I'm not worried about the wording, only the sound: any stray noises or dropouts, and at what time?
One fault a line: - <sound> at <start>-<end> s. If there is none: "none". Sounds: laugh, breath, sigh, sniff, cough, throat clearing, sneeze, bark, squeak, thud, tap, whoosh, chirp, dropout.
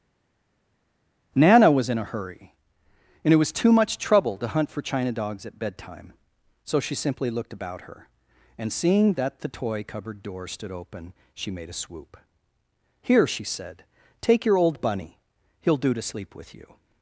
none